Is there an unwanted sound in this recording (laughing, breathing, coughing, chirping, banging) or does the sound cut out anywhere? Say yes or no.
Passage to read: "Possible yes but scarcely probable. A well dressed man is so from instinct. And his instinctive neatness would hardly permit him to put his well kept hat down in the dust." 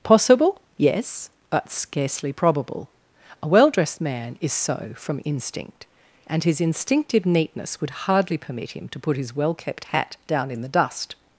no